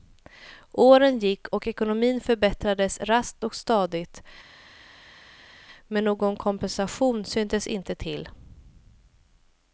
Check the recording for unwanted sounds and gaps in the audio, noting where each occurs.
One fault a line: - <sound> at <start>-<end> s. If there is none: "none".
none